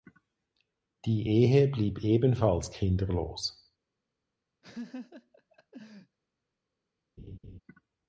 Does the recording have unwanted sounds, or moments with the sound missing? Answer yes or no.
yes